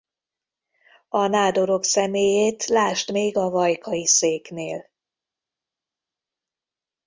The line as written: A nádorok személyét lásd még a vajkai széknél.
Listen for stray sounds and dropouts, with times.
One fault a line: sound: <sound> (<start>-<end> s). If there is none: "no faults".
no faults